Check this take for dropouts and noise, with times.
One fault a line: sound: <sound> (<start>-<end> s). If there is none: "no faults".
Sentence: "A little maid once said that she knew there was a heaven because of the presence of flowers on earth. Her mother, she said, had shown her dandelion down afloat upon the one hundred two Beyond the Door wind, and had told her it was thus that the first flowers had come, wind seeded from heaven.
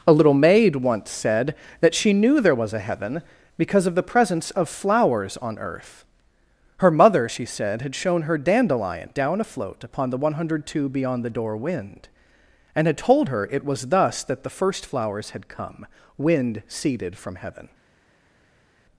no faults